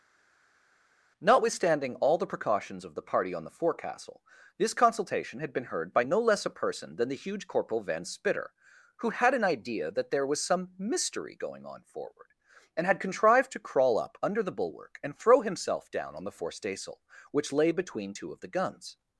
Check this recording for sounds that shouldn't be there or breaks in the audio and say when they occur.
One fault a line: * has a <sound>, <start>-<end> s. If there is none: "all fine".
all fine